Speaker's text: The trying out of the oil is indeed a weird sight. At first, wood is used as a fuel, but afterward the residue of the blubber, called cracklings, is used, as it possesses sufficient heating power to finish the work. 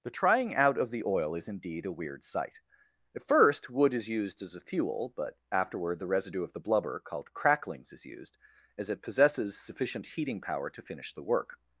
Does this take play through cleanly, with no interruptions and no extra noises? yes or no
yes